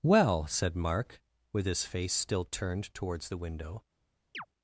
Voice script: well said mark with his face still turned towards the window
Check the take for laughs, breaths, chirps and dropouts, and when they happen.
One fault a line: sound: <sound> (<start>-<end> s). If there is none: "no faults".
sound: chirp (4.3-4.5 s)